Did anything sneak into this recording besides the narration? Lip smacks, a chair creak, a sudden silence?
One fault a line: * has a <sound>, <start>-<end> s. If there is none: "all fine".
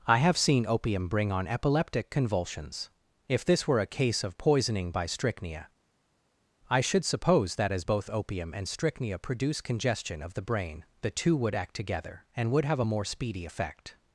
all fine